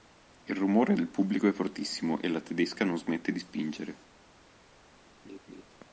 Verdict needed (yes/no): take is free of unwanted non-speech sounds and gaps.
no